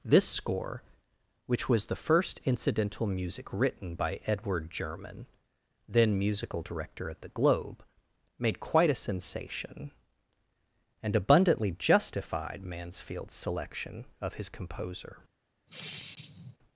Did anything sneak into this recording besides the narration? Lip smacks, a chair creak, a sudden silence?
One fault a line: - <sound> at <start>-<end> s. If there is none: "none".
- sigh at 15.7-16.6 s